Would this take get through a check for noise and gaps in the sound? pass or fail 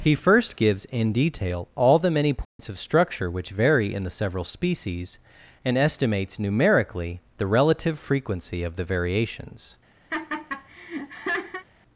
fail